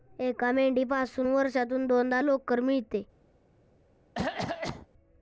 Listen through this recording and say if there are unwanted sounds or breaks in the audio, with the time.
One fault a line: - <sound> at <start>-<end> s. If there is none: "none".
- cough at 4.2-4.9 s